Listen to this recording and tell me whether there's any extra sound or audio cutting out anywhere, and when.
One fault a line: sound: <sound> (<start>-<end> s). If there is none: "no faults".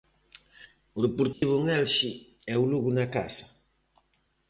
sound: dropout (1.3-1.4 s)